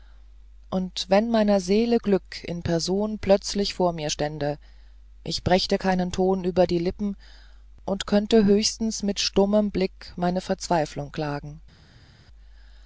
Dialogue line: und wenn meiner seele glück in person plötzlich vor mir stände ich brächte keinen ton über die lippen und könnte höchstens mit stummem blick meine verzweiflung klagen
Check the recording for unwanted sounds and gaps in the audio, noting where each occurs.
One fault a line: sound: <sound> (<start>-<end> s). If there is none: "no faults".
no faults